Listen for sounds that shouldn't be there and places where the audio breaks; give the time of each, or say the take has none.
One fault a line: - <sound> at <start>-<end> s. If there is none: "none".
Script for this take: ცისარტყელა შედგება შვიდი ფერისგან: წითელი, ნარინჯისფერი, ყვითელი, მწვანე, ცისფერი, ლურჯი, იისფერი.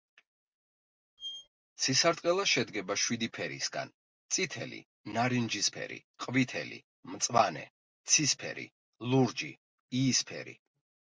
- squeak at 1.2-1.5 s